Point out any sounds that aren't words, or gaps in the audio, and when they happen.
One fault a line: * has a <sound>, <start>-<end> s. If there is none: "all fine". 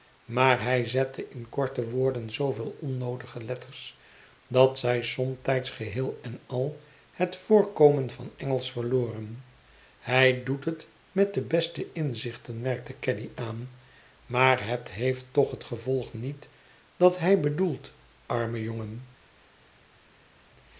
all fine